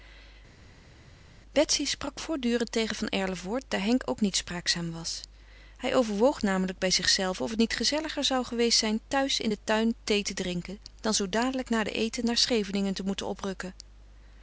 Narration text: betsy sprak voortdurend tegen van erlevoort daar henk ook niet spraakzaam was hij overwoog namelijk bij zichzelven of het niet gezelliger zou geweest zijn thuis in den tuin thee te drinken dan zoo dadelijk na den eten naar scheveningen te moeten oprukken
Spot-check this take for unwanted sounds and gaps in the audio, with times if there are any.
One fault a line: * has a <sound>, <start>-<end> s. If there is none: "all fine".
all fine